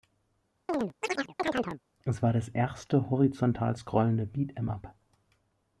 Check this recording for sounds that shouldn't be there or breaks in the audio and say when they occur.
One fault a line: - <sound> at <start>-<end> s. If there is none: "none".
- chirp at 0.7-1.8 s